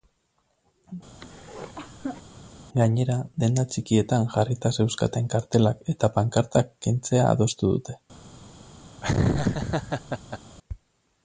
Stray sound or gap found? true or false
true